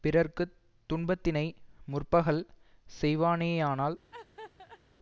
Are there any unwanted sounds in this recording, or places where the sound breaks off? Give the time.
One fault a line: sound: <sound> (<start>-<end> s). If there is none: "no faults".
sound: laugh (4.1-4.8 s)